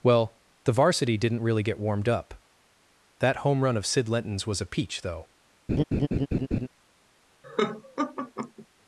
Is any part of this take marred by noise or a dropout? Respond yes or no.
yes